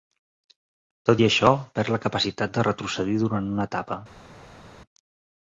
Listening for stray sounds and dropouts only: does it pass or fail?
pass